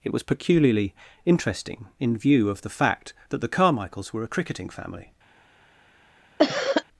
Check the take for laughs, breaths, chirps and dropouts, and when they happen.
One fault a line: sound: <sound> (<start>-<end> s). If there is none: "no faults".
sound: cough (6.4-6.8 s)